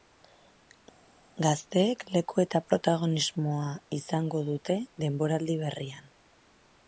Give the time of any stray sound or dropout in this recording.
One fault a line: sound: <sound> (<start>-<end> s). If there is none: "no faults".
no faults